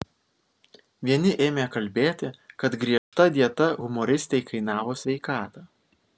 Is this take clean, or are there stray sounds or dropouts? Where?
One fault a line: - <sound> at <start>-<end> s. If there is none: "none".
- dropout at 3.0-3.1 s